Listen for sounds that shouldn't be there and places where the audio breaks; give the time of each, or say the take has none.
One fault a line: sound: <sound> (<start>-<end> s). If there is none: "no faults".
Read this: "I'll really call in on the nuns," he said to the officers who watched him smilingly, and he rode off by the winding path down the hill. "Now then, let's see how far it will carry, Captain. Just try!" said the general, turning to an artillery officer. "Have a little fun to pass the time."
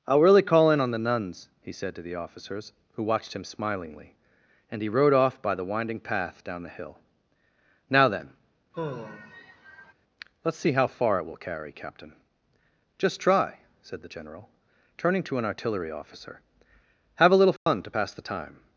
sound: sigh (8.7-9.9 s)
sound: dropout (17.6-17.7 s)